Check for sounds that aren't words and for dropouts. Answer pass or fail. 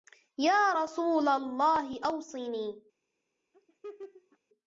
fail